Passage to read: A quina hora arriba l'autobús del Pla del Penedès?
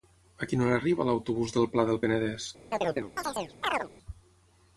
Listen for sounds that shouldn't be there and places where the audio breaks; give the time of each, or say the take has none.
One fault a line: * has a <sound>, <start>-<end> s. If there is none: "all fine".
* has a chirp, 2.7-3.9 s